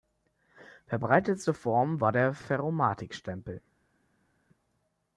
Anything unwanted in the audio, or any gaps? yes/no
no